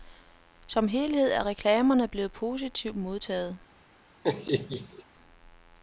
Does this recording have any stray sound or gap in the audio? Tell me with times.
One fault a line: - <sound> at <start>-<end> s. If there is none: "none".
- laugh at 4.2-5.0 s